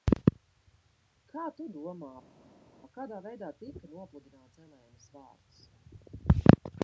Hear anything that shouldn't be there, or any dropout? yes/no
no